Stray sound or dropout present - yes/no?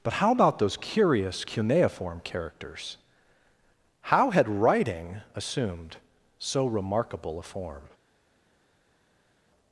no